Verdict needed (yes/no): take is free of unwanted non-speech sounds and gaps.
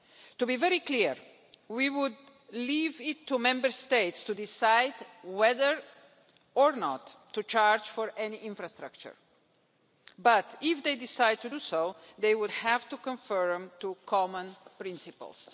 yes